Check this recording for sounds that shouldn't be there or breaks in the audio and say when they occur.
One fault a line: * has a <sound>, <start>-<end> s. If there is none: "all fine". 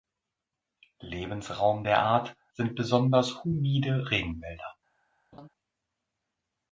* has a laugh, 5.3-5.5 s